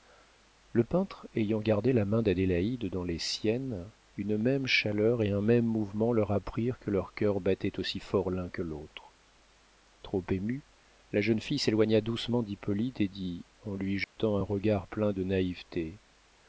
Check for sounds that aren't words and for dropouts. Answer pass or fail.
fail